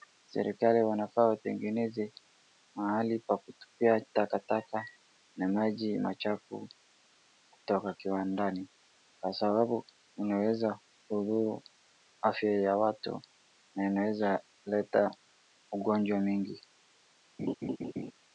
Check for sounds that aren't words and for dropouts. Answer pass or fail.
fail